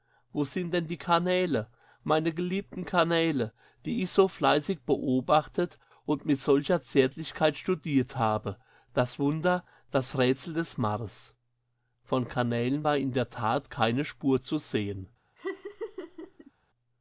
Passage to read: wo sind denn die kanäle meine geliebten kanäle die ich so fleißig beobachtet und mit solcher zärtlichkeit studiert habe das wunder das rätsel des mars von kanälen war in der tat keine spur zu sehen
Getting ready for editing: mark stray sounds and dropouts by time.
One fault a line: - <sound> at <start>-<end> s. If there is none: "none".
- laugh at 15.4-16.5 s